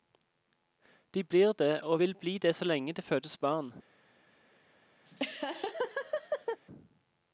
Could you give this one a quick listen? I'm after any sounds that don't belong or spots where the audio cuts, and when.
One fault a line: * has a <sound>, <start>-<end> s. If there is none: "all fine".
* has a laugh, 5.0-6.6 s